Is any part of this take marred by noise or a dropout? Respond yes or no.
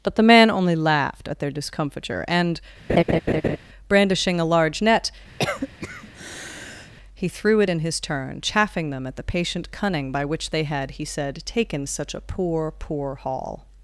yes